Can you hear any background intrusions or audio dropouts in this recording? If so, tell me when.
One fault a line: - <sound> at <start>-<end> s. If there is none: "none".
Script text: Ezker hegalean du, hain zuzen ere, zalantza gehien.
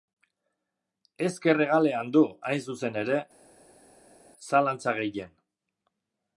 none